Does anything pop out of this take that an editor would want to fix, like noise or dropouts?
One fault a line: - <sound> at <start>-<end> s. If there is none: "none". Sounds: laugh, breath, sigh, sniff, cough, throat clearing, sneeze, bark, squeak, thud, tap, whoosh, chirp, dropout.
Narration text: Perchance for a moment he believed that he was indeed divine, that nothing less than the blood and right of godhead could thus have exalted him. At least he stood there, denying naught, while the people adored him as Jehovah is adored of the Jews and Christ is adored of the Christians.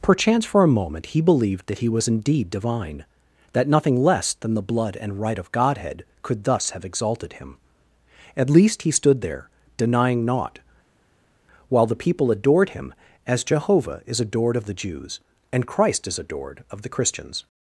none